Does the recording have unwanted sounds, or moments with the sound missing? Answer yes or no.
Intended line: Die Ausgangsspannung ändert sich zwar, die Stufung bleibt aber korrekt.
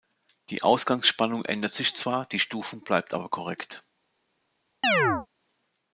yes